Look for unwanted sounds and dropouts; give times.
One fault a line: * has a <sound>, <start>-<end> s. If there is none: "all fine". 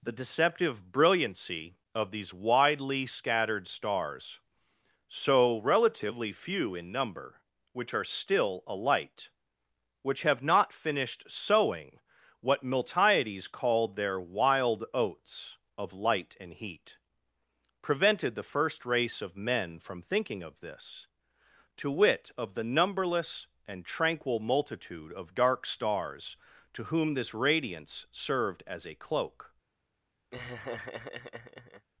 * has a laugh, 30.3-31.9 s